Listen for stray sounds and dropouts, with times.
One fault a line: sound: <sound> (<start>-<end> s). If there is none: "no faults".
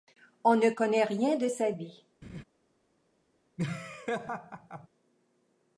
sound: laugh (2.2-2.4 s)
sound: laugh (3.6-4.9 s)